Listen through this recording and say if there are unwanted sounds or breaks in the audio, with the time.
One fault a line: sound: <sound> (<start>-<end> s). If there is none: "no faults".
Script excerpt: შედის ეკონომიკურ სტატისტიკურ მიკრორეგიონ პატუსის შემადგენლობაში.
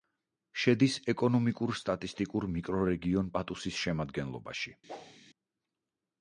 sound: whoosh (4.9-5.2 s)